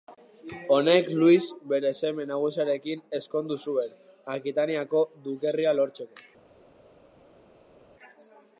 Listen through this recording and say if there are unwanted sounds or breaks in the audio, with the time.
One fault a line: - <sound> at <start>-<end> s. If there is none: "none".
none